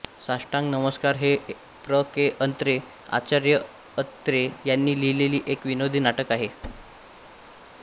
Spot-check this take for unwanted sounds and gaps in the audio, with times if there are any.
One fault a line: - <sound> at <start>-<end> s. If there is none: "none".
- thud at 6.6-7.6 s